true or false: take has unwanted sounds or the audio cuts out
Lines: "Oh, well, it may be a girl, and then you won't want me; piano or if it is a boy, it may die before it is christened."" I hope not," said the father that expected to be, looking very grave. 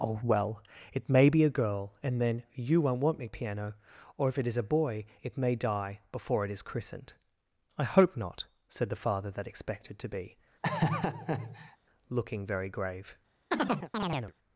true